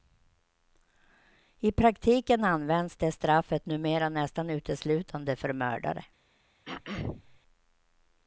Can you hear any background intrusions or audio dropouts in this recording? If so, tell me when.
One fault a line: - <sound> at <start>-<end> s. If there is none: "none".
- throat clearing at 6.7-7.4 s